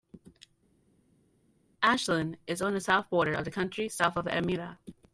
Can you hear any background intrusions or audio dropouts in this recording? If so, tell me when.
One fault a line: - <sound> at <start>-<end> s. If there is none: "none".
none